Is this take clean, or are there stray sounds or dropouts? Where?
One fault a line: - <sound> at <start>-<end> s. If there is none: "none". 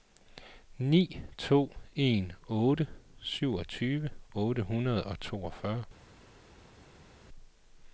none